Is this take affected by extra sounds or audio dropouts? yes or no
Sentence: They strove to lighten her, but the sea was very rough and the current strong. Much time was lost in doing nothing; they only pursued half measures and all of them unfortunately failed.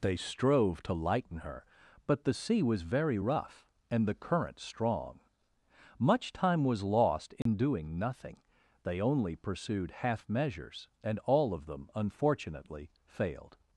yes